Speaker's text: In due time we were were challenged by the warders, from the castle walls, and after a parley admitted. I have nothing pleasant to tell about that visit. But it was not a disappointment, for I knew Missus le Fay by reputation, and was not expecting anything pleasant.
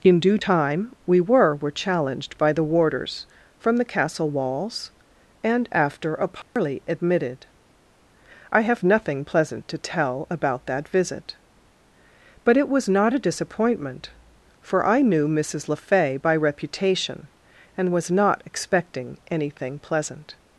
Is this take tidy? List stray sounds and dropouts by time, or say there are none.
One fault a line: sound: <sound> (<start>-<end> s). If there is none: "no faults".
sound: dropout (6.4-6.6 s)